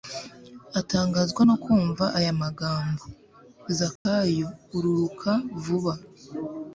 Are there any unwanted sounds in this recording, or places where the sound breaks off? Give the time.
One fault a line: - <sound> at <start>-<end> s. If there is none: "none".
- dropout at 4.0-4.1 s